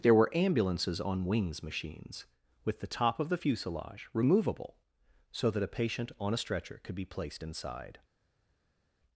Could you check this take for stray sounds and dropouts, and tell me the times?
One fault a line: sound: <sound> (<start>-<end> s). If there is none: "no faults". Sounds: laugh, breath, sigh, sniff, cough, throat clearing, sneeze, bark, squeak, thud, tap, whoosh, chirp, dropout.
no faults